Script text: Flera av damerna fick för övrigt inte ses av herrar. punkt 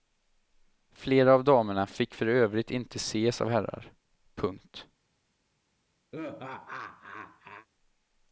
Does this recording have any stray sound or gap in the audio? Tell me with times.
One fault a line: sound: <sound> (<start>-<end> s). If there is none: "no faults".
sound: laugh (6.1-7.7 s)